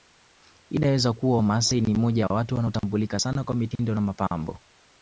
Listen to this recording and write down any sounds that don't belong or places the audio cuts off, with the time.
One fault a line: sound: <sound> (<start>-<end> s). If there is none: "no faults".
no faults